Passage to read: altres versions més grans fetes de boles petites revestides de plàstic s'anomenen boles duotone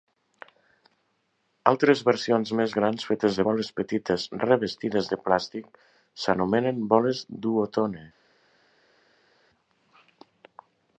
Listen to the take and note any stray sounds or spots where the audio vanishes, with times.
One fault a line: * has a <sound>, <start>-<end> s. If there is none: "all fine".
all fine